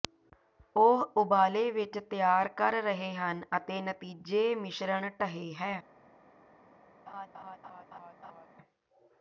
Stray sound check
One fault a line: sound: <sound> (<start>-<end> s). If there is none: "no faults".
sound: laugh (7.1-8.5 s)